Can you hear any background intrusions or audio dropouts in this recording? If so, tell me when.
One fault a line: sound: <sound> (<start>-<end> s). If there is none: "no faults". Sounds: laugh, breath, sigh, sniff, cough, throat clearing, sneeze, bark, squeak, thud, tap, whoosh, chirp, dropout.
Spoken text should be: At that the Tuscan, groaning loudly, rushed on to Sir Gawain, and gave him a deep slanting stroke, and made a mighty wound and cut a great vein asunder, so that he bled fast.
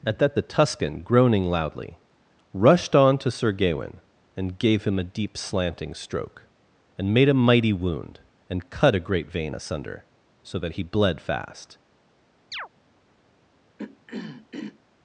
sound: chirp (12.5-12.7 s)
sound: throat clearing (13.8-14.8 s)